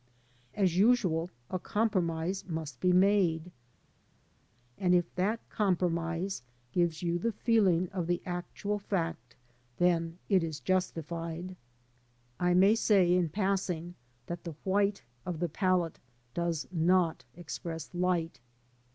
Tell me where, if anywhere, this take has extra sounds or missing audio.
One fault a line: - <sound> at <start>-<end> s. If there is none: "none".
none